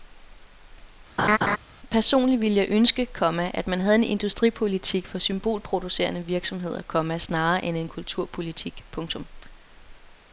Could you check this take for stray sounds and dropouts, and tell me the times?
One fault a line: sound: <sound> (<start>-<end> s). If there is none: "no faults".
sound: laugh (1.2-1.6 s)